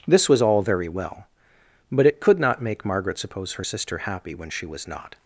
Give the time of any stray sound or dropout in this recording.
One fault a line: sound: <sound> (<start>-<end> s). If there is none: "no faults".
no faults